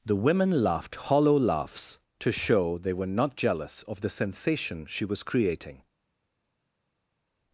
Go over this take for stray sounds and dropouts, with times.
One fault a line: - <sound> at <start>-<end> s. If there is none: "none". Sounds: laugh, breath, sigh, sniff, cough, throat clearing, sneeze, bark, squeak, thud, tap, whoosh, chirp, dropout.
none